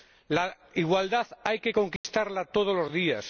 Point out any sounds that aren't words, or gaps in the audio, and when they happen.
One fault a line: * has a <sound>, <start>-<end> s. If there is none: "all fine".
* has a dropout, 2.0-2.0 s